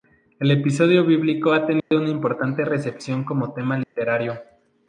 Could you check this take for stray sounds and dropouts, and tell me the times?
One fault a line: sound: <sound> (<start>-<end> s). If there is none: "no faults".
sound: dropout (1.8-1.9 s)
sound: dropout (3.8-4.0 s)